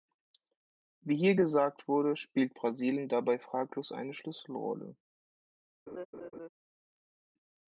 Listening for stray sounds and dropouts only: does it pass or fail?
fail